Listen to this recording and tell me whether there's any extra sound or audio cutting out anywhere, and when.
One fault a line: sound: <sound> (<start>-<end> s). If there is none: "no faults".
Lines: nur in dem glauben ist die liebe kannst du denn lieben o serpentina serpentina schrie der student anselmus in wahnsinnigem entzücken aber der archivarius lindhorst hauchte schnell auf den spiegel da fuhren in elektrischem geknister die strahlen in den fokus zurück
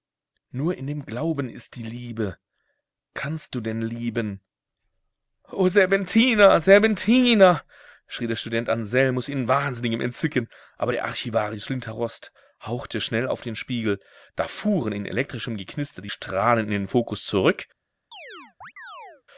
sound: chirp (18.1-19.2 s)